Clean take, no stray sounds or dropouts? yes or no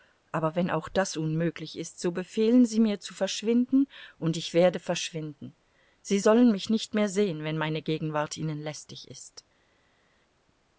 yes